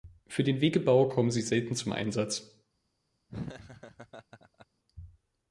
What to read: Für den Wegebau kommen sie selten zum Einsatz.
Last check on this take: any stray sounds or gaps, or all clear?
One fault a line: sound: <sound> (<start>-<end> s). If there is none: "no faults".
sound: laugh (3.3-4.7 s)